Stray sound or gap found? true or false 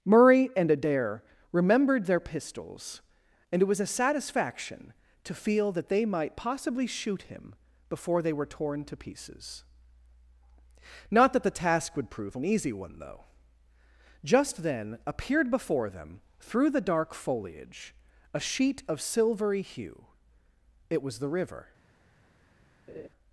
true